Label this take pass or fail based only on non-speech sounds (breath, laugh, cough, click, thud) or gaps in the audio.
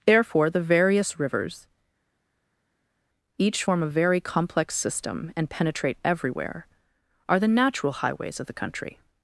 pass